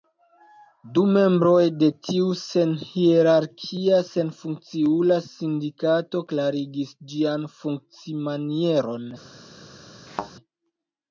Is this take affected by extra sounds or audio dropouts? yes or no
yes